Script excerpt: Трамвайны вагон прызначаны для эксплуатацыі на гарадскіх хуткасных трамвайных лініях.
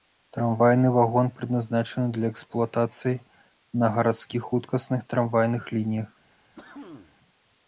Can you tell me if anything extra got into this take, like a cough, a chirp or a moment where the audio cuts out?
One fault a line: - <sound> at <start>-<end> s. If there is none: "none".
- cough at 6.6-7.2 s